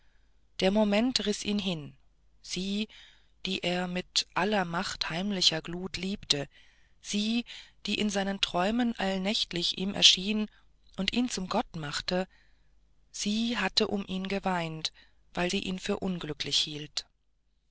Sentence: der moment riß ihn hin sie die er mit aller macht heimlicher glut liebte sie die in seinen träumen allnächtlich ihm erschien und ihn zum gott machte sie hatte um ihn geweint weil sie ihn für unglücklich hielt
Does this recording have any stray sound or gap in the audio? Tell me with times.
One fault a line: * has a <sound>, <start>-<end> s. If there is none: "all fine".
all fine